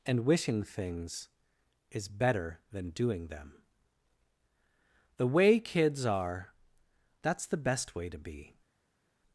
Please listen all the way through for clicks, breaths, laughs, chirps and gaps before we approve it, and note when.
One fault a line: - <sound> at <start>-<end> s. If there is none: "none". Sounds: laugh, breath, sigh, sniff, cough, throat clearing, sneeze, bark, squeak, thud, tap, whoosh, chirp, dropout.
none